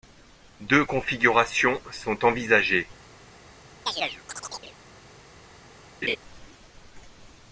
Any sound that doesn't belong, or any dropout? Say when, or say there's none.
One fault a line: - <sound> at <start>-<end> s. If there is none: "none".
- chirp at 3.9-4.8 s
- laugh at 6.0-6.2 s